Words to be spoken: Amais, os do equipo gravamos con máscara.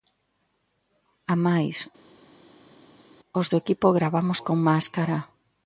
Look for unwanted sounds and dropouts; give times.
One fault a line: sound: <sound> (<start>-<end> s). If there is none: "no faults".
no faults